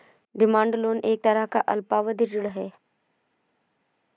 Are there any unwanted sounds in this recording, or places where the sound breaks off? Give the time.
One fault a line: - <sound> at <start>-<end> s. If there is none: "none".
none